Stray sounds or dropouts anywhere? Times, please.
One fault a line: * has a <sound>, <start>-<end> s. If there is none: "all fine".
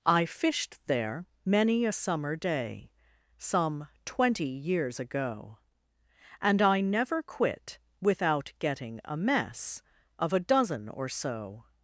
all fine